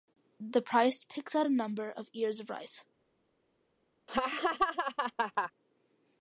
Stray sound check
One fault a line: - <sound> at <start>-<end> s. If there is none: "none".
- laugh at 4.1-5.5 s